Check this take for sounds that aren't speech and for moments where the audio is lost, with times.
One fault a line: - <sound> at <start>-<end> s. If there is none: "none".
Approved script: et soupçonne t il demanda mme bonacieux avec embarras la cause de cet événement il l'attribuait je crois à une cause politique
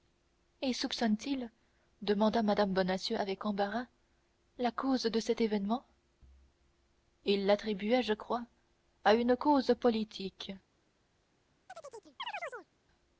- chirp at 11.7-12.7 s